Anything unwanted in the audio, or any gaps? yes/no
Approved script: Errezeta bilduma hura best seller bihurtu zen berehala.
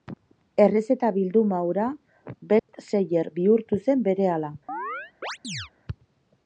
yes